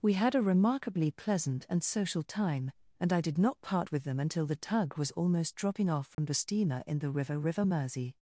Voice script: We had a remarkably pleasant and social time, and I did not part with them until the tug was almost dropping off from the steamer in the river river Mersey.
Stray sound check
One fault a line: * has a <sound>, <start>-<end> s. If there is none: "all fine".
* has a dropout, 6.1-6.2 s